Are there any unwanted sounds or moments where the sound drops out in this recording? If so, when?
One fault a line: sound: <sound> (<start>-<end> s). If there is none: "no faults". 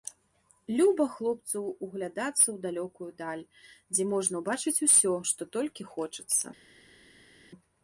no faults